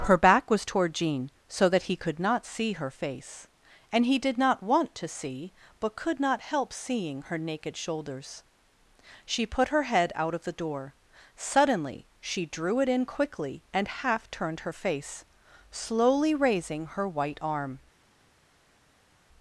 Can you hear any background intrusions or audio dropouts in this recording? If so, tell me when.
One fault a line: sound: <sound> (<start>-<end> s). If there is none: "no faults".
no faults